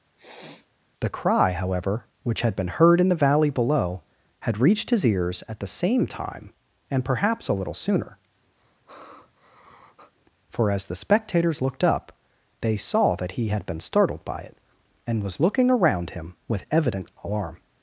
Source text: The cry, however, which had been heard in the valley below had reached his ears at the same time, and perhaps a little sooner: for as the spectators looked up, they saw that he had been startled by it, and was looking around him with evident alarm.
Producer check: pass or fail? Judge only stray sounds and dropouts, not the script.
fail